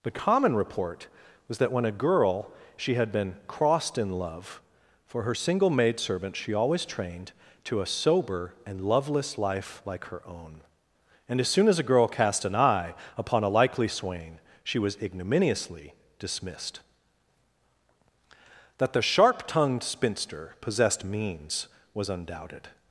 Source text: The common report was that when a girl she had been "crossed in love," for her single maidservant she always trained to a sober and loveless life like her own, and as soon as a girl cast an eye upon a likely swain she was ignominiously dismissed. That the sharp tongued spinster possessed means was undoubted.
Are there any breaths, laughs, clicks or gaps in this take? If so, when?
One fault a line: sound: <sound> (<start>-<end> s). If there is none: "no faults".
no faults